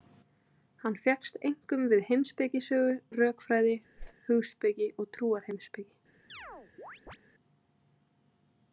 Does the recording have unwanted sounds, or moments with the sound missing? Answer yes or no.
yes